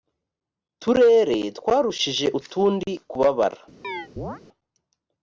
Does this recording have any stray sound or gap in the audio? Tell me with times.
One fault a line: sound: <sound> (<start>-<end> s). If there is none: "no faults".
sound: chirp (3.8-4.4 s)